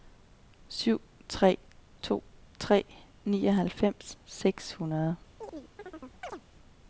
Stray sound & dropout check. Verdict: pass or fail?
fail